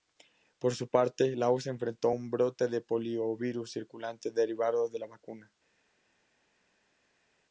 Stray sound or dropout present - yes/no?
no